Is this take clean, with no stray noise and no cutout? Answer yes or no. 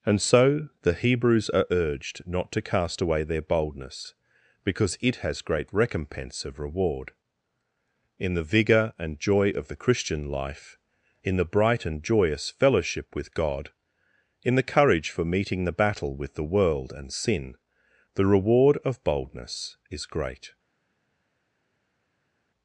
yes